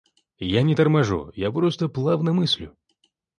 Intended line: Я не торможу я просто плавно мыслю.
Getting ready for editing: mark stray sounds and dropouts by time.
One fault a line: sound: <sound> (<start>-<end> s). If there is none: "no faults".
no faults